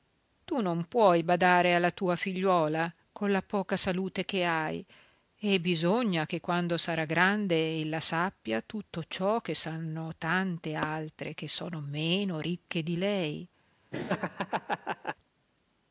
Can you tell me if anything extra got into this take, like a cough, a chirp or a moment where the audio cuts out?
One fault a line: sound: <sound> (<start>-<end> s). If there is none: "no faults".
sound: laugh (13.9-15.2 s)